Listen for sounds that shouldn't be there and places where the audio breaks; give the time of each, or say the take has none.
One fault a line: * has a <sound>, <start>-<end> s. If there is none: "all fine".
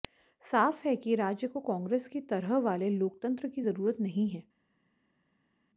all fine